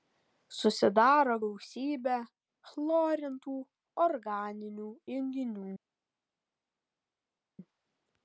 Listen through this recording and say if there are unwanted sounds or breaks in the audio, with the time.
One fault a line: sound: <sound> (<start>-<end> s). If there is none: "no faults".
no faults